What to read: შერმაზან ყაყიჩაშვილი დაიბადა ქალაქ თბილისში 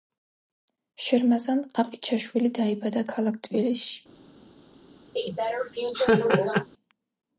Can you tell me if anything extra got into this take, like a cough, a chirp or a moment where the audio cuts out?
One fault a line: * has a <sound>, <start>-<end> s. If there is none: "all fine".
* has a laugh, 5.2-6.7 s